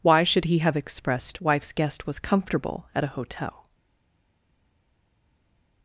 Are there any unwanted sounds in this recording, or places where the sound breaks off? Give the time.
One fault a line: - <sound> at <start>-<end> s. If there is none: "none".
none